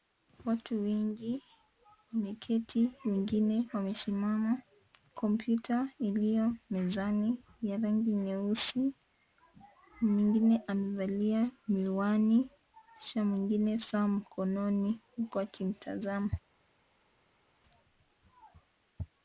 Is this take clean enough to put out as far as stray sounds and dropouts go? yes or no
yes